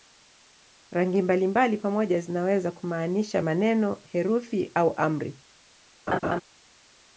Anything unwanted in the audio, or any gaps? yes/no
yes